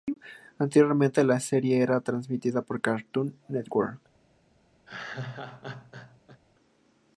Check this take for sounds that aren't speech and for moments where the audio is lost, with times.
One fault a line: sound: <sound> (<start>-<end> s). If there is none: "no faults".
sound: laugh (4.9-6.4 s)